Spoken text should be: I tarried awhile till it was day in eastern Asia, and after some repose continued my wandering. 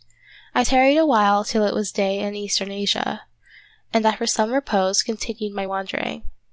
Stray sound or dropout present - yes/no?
no